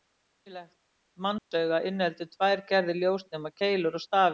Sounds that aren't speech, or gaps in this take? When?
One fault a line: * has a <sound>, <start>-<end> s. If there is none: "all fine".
* has a dropout, 1.4-1.5 s